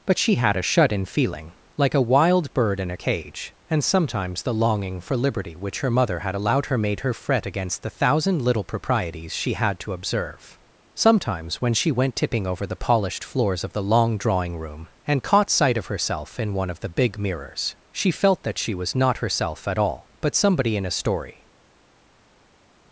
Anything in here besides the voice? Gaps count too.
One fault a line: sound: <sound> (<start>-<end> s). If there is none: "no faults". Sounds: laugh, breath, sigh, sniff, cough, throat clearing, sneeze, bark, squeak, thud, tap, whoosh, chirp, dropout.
no faults